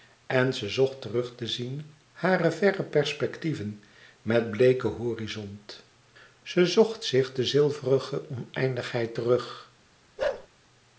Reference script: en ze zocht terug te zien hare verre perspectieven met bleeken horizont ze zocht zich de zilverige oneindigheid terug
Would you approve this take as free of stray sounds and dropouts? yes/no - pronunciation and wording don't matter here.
no